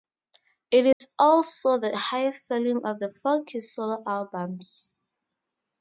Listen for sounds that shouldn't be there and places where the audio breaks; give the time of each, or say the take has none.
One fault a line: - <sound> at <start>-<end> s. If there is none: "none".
- dropout at 0.9-1.0 s